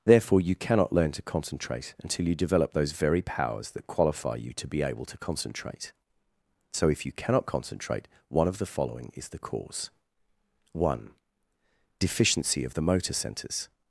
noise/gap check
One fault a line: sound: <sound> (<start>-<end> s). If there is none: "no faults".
no faults